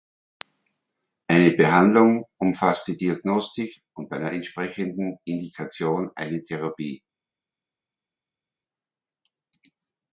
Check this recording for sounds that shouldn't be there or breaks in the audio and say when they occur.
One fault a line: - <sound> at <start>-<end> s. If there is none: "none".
none